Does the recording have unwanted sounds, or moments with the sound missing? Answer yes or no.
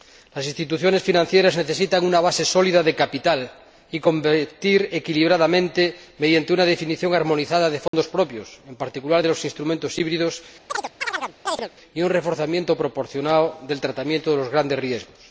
yes